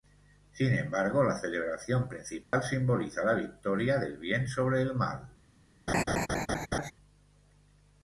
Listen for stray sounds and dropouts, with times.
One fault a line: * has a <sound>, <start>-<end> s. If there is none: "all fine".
* has a dropout, 2.4-2.5 s
* has a laugh, 5.9-6.9 s